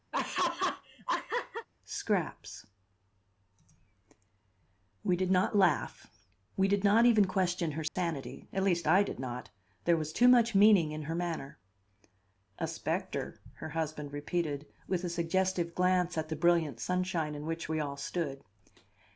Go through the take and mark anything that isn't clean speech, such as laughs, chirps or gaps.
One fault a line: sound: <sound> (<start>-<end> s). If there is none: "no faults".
sound: laugh (0.1-1.7 s)
sound: dropout (7.9-8.0 s)